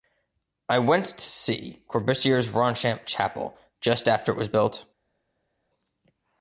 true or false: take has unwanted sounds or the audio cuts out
false